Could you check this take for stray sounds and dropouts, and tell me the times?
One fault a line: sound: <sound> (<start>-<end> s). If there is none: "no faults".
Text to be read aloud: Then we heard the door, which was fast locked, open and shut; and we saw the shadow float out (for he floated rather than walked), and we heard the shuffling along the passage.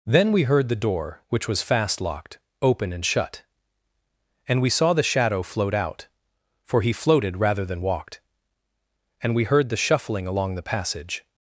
no faults